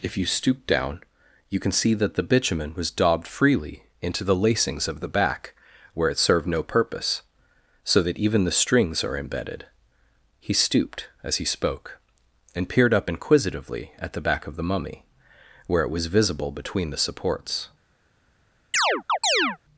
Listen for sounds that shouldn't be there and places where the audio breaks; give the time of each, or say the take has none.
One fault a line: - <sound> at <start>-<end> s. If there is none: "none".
- chirp at 18.7-19.6 s